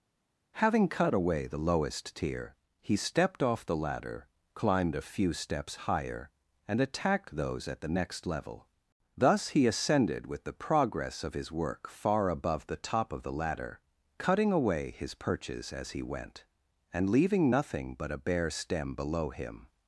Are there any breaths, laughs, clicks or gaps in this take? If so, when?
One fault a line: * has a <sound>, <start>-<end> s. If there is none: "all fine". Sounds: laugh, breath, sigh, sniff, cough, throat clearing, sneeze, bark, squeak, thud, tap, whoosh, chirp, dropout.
all fine